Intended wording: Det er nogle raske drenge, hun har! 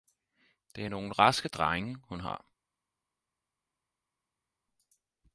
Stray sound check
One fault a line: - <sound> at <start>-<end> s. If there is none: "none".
none